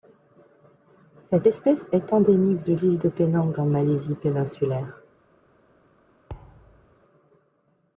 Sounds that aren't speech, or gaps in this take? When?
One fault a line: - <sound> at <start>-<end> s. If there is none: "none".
- thud at 6.3-7.0 s